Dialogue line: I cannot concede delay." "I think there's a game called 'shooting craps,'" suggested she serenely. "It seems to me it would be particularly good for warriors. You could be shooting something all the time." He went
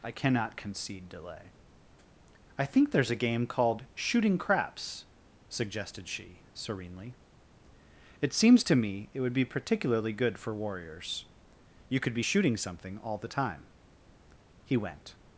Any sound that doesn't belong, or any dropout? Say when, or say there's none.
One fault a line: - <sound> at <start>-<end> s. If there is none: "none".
none